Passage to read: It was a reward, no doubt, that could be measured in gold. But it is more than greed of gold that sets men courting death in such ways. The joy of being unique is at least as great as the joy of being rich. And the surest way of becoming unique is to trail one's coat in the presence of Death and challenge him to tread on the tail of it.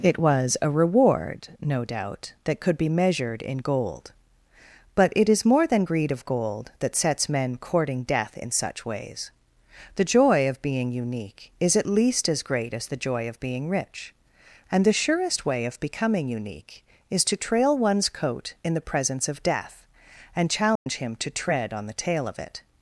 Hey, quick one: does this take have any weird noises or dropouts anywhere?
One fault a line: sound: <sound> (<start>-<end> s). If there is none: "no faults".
sound: dropout (20.8-20.9 s)